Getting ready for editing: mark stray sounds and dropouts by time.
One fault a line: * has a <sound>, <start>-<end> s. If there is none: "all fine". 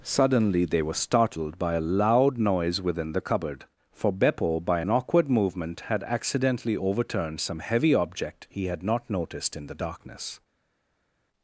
all fine